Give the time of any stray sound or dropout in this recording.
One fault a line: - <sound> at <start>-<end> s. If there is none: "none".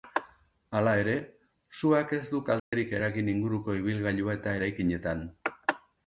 - dropout at 2.6-2.7 s